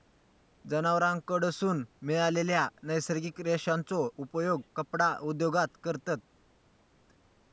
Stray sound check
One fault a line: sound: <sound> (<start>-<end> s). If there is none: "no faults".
no faults